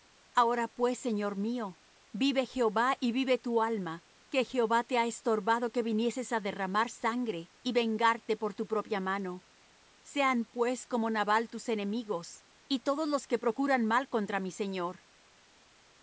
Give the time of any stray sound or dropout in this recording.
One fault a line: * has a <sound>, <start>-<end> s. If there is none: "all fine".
all fine